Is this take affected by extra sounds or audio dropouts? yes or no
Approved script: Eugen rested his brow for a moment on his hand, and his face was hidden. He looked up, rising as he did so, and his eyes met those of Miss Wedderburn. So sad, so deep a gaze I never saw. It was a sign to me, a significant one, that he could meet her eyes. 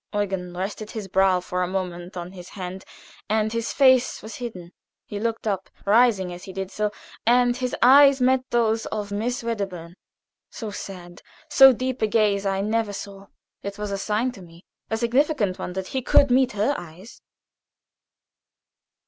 no